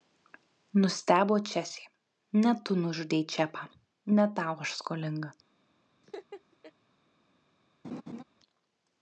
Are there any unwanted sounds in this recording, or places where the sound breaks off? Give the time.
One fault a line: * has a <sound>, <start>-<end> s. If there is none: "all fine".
* has a laugh, 6.0-6.7 s
* has a laugh, 7.8-8.2 s